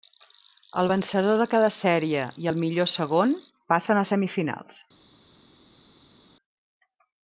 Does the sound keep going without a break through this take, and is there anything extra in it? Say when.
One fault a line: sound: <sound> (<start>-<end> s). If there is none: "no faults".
no faults